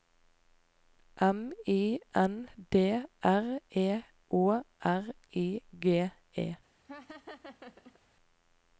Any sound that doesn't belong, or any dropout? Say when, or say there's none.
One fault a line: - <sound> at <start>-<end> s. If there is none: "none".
- laugh at 6.8-8.0 s